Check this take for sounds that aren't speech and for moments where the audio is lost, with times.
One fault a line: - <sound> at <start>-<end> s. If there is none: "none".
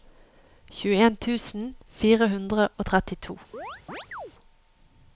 - chirp at 3.5-4.3 s